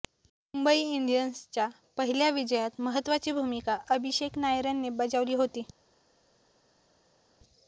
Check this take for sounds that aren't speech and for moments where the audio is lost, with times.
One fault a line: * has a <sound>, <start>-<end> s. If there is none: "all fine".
all fine